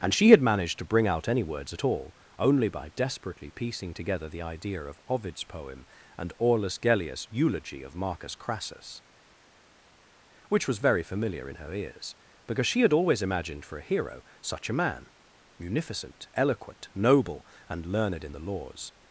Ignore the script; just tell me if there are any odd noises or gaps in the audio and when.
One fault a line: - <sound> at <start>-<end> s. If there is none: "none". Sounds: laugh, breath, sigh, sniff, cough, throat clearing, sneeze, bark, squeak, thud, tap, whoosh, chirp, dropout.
none